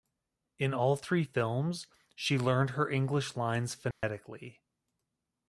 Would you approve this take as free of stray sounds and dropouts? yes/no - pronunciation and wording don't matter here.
no